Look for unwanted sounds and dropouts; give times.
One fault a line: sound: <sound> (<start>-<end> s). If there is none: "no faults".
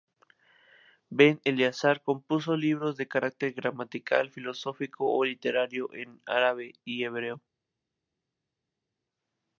no faults